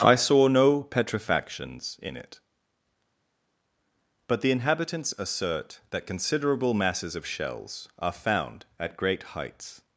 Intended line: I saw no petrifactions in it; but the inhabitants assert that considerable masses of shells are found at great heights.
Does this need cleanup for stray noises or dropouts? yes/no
no